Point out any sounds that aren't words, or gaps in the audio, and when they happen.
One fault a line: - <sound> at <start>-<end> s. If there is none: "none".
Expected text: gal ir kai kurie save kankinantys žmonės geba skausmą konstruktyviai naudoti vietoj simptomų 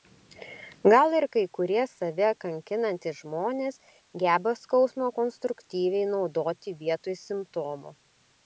none